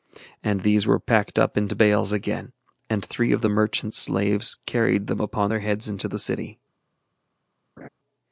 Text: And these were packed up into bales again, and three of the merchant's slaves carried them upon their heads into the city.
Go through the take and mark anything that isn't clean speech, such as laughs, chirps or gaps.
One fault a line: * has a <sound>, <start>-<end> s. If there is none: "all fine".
* has a laugh, 7.8-7.9 s